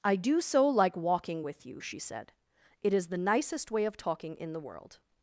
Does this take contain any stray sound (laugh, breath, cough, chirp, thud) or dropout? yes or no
no